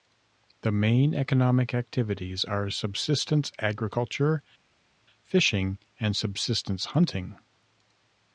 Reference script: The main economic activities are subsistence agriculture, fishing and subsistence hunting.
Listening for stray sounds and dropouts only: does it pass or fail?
pass